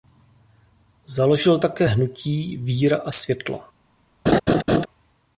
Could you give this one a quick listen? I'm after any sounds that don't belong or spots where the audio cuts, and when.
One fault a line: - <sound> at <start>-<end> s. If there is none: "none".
- laugh at 4.3-4.9 s